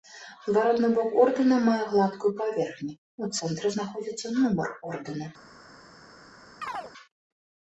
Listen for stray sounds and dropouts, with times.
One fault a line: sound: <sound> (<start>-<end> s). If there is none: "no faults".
sound: chirp (6.6-6.9 s)